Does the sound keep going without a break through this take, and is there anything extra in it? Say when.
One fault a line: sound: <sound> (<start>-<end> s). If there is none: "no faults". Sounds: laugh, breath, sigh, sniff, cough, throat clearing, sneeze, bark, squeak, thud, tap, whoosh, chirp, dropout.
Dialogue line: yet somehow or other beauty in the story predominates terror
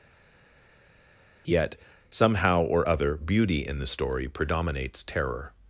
no faults